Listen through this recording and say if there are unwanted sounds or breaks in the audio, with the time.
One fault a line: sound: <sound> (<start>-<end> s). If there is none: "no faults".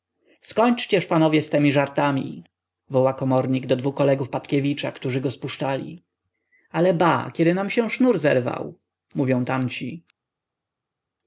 no faults